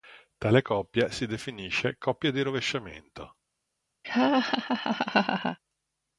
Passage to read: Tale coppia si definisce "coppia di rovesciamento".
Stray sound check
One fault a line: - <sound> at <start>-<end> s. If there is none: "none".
- laugh at 4.0-5.6 s